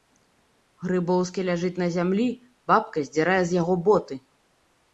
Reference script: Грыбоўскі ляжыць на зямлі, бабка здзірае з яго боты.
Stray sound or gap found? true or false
false